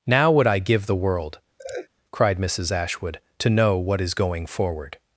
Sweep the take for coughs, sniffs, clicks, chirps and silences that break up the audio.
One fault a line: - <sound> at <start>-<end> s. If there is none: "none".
- laugh at 1.6-1.9 s